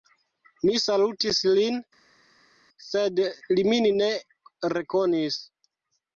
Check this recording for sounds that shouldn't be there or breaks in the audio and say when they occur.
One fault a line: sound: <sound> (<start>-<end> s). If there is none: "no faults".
no faults